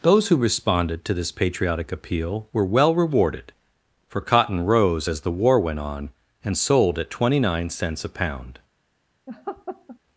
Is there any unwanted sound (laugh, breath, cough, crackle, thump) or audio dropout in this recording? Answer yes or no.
yes